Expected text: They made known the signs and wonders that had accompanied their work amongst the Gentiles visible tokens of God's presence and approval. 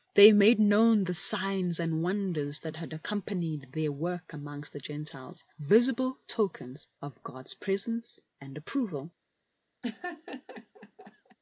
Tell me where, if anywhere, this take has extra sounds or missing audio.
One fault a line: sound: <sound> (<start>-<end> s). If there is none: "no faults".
sound: laugh (9.8-11.4 s)